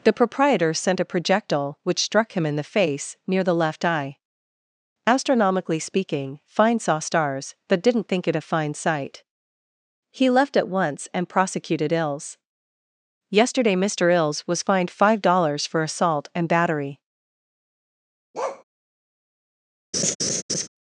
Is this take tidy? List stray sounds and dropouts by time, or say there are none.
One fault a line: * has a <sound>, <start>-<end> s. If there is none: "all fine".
* has a bark, 18.3-18.6 s
* has a laugh, 19.9-20.7 s